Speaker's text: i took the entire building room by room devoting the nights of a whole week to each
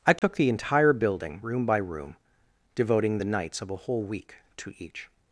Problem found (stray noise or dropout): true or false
true